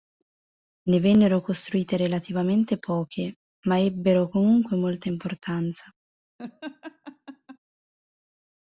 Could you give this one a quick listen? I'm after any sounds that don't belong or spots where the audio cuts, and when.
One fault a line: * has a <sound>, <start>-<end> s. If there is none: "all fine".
* has a laugh, 6.4-7.6 s